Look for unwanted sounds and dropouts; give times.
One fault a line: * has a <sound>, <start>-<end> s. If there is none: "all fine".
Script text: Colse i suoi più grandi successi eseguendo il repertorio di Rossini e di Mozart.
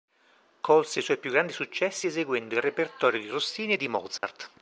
* has a dropout, 4.2-4.2 s